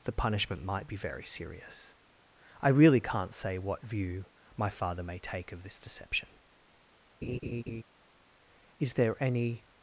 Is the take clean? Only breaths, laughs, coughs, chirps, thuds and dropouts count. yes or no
no